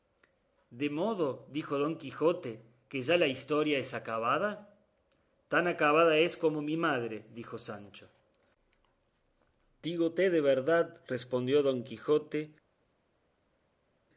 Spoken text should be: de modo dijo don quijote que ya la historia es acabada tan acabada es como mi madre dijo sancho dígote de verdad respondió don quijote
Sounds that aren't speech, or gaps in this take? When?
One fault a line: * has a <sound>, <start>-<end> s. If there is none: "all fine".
all fine